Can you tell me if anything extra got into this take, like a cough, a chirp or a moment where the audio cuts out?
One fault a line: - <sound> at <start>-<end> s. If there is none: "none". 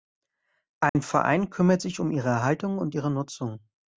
- dropout at 0.9-1.0 s